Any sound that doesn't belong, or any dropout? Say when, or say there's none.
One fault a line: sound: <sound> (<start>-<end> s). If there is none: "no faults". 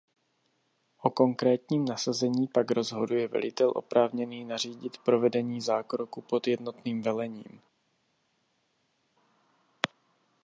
no faults